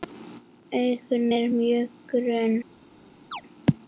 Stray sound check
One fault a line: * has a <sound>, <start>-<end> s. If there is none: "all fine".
* has a chirp, 3.3-3.4 s